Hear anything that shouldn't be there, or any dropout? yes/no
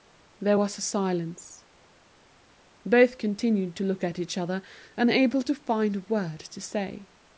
no